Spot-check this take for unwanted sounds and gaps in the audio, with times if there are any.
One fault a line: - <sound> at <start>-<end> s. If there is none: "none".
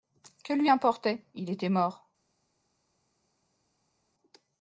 none